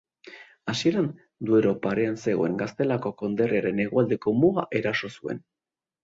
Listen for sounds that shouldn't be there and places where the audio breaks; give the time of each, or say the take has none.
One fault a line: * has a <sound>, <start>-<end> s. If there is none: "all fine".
all fine